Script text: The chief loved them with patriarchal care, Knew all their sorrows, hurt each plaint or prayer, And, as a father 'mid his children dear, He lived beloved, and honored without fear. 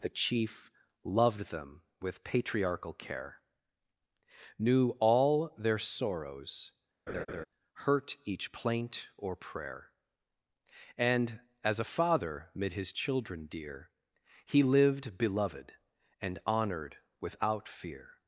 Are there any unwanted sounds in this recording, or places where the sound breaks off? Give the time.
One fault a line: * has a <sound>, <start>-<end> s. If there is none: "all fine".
* has a laugh, 7.1-7.5 s